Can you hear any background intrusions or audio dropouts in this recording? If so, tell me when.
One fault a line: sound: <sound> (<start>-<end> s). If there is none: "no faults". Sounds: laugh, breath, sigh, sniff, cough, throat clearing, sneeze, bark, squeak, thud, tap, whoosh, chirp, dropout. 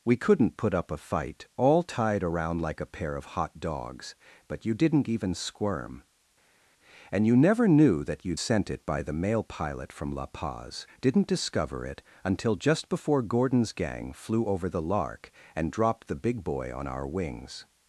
no faults